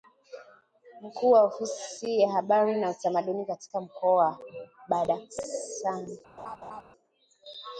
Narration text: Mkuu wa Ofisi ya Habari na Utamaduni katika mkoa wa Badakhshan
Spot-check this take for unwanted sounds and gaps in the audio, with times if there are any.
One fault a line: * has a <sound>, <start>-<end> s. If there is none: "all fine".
* has a laugh, 6.4-6.8 s